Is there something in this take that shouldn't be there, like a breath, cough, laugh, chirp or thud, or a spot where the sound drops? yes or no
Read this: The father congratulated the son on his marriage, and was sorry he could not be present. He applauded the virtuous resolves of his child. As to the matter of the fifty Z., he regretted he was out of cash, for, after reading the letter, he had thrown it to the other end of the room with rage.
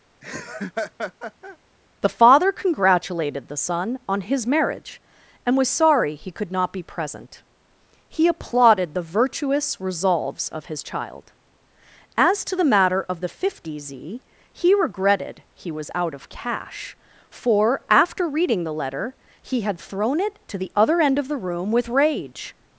yes